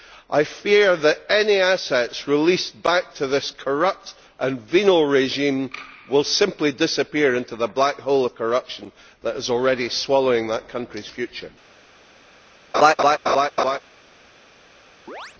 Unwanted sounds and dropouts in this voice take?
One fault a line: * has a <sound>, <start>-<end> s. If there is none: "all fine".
* has a laugh, 12.7-13.8 s
* has a chirp, 15.1-15.3 s